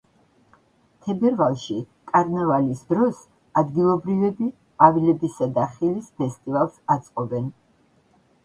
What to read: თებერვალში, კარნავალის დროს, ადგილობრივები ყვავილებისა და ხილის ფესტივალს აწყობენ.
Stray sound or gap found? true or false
false